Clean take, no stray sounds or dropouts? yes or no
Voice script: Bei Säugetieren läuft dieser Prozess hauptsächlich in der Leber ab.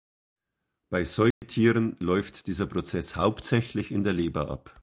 no